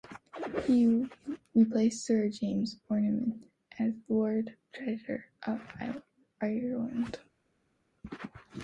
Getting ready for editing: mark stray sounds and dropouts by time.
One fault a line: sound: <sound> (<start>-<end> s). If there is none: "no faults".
no faults